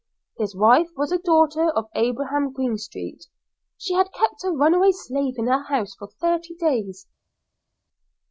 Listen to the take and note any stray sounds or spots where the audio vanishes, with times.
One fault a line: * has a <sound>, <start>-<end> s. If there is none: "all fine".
all fine